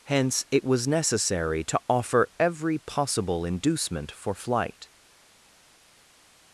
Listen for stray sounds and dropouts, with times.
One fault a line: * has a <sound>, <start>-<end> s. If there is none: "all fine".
all fine